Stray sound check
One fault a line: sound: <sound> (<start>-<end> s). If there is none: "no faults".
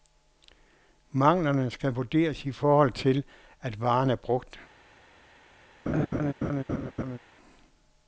sound: laugh (5.9-7.2 s)